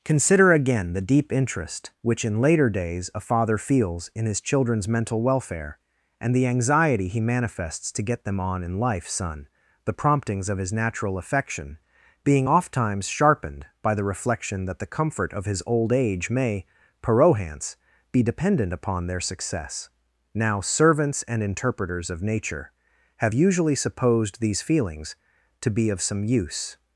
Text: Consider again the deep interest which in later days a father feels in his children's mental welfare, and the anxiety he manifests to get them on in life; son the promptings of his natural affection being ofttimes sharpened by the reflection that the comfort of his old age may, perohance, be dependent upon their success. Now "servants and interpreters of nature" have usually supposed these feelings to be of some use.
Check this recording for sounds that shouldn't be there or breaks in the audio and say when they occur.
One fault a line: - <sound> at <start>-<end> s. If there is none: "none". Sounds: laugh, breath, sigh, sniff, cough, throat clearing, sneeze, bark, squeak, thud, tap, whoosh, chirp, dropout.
none